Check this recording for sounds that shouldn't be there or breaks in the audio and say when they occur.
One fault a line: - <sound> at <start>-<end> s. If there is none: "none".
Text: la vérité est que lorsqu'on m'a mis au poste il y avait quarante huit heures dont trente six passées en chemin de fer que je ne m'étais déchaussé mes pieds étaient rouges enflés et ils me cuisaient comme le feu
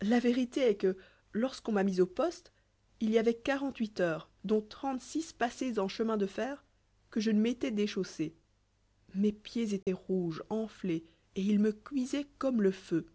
- dropout at 9.8-9.9 s